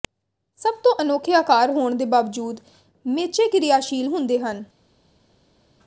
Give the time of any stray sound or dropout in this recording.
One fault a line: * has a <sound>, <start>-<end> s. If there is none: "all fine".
all fine